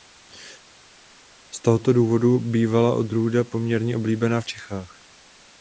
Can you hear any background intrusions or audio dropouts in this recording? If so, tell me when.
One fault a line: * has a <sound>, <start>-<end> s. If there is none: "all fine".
all fine